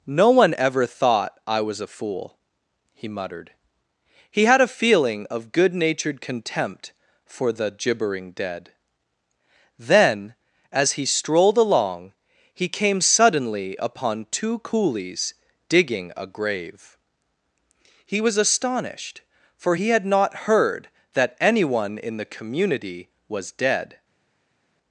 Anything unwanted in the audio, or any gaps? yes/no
no